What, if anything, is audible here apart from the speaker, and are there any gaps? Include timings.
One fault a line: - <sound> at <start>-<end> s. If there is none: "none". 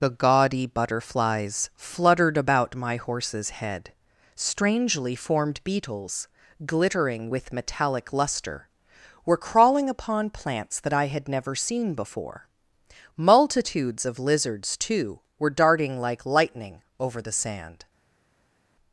none